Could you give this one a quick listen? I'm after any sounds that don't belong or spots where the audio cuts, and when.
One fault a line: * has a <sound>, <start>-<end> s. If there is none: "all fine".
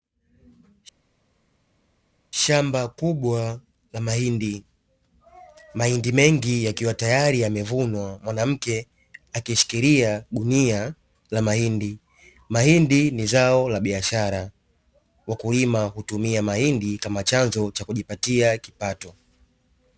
all fine